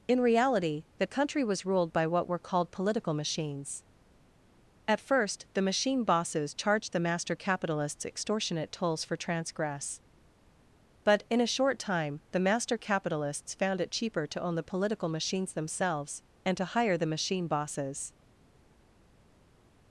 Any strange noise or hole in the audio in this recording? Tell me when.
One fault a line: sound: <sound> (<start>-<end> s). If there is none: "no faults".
no faults